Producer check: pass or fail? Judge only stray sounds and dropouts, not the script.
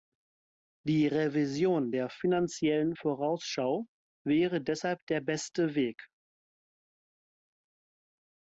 pass